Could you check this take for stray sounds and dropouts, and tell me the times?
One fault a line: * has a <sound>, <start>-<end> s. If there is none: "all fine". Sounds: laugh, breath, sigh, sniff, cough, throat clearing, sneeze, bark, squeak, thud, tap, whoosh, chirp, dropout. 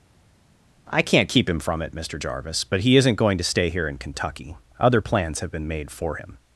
all fine